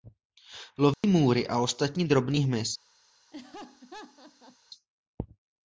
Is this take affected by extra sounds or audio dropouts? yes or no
yes